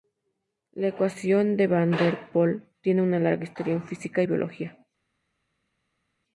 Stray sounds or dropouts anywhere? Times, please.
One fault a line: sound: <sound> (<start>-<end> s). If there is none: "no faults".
no faults